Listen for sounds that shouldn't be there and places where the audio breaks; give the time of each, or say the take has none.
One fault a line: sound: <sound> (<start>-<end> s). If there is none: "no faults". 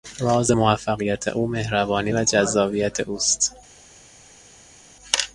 no faults